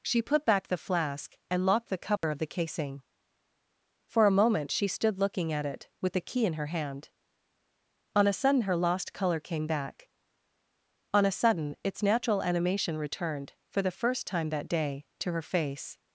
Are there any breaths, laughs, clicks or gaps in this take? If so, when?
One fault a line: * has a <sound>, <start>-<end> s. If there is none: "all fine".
* has a dropout, 2.2-2.2 s